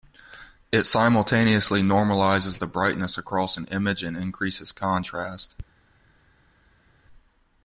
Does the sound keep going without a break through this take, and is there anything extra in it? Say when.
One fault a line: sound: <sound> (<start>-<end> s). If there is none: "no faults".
no faults